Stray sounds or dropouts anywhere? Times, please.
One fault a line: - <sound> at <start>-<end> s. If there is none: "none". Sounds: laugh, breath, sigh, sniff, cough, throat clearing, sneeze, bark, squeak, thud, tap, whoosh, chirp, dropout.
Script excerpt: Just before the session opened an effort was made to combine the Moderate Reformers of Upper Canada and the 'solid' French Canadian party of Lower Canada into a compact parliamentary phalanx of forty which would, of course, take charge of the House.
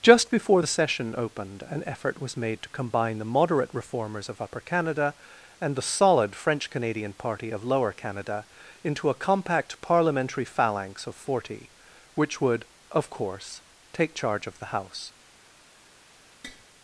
- tap at 16.4-16.7 s